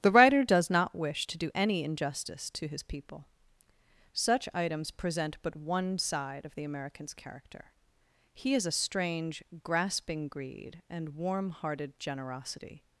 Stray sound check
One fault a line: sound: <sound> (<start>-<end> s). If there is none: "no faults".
no faults